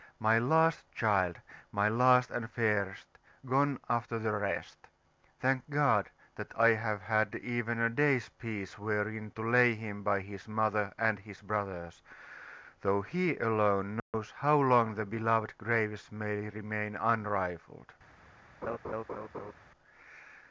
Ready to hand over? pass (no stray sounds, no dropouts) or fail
fail